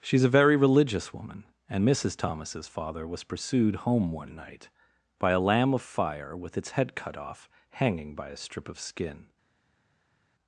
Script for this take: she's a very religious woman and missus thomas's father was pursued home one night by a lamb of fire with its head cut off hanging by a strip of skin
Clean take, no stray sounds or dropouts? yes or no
yes